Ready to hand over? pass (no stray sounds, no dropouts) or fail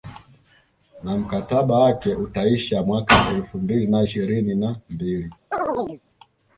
fail